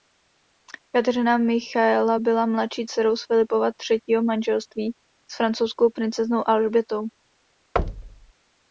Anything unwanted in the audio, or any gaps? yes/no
yes